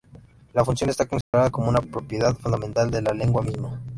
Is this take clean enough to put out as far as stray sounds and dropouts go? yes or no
no